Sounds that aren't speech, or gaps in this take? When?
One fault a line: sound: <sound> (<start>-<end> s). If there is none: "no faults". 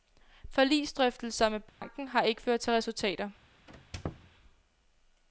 sound: dropout (1.7-1.8 s)
sound: squeak (3.7-4.3 s)